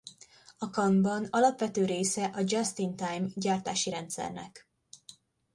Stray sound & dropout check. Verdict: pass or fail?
pass